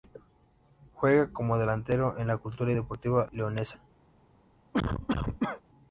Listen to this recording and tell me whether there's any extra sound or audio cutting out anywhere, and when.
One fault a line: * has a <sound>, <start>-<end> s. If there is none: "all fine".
* has a cough, 4.7-5.6 s